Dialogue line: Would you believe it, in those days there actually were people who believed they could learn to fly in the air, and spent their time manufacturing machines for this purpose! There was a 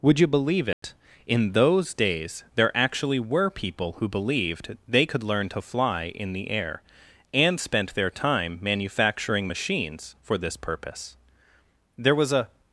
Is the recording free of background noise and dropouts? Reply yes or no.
no